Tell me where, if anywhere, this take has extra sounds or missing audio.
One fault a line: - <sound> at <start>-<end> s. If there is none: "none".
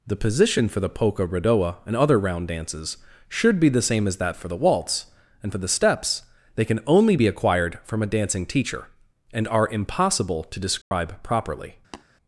- dropout at 10.8-10.9 s
- tap at 11.9-12.0 s